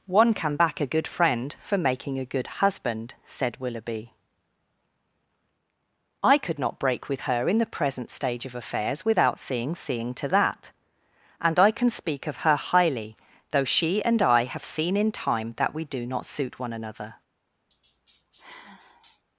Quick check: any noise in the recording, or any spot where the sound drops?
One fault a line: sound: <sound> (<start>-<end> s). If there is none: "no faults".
sound: sigh (17.7-19.2 s)